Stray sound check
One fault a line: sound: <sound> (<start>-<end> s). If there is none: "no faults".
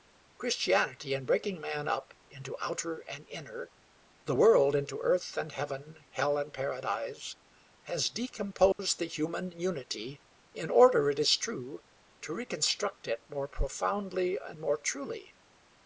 sound: dropout (8.7-8.8 s)